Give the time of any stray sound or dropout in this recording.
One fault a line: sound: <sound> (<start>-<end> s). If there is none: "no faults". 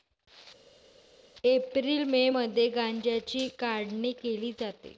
no faults